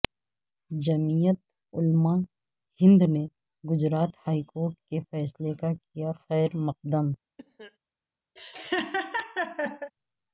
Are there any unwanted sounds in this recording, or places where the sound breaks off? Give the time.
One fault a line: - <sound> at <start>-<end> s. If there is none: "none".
- cough at 7.4-7.8 s
- laugh at 8.4-9.9 s